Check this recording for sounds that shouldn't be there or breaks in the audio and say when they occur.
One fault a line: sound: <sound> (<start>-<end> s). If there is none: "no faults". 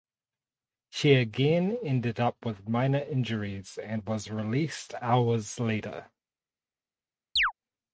sound: chirp (7.4-7.5 s)